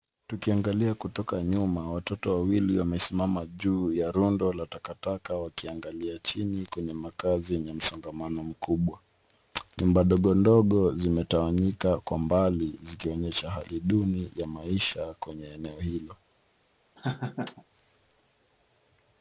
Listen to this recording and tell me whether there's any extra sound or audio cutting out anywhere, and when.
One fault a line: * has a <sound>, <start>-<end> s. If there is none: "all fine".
* has a laugh, 17.0-17.6 s